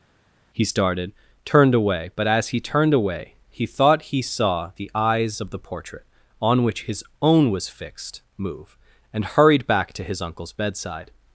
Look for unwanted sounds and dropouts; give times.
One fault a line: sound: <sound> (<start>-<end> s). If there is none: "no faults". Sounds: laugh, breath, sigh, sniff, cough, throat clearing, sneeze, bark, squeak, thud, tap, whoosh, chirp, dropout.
no faults